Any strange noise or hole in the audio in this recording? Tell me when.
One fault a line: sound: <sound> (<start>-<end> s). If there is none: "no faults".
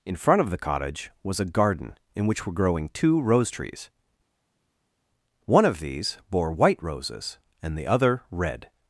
no faults